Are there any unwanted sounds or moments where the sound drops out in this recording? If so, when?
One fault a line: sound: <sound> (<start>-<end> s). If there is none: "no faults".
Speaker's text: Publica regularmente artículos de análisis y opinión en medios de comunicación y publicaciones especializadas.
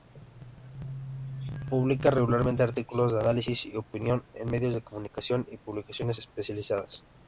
no faults